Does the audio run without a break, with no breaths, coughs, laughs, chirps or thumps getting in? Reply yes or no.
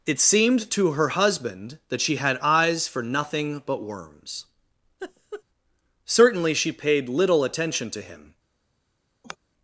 no